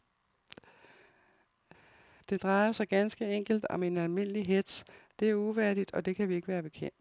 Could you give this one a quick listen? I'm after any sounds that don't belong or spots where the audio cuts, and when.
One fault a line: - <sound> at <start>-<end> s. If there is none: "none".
none